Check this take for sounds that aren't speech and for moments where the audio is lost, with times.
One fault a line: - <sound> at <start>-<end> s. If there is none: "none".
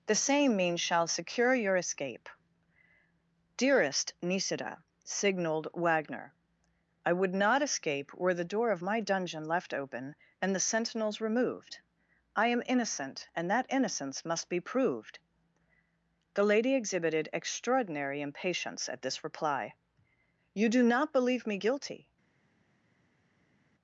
none